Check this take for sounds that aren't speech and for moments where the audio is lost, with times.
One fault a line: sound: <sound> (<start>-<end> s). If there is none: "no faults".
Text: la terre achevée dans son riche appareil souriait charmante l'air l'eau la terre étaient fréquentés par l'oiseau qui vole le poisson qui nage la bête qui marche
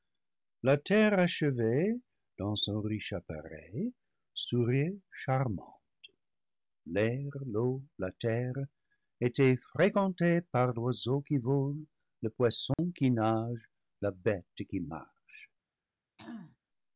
sound: dropout (12.7-12.8 s)
sound: throat clearing (16.2-16.6 s)